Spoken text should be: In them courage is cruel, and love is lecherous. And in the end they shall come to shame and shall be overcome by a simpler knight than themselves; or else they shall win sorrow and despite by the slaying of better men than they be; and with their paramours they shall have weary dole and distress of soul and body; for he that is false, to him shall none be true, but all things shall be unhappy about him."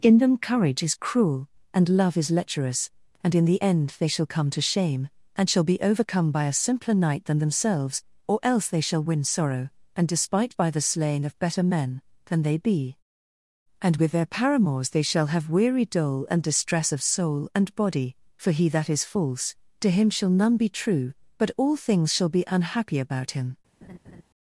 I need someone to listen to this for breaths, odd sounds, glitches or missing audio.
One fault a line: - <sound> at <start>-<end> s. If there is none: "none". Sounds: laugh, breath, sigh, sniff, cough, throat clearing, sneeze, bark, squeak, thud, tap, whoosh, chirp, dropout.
- laugh at 23.8-24.2 s